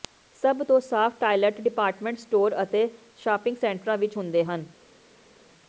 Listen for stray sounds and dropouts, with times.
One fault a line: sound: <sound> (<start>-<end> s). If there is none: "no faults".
no faults